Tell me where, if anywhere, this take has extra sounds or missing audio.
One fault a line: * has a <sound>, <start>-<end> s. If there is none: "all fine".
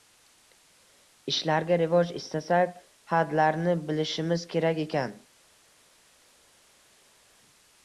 all fine